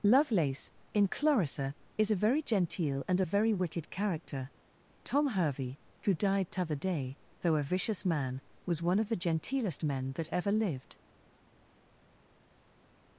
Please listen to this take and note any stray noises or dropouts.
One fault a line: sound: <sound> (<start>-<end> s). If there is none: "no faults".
no faults